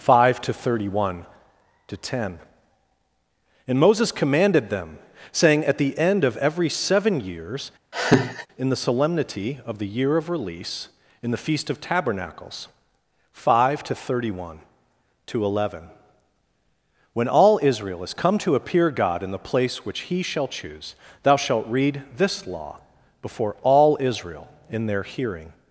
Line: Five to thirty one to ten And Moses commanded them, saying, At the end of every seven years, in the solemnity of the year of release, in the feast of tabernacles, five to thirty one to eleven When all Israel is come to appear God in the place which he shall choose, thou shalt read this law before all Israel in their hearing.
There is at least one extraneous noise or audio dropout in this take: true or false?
true